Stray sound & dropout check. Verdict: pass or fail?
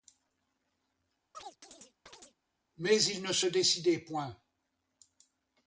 fail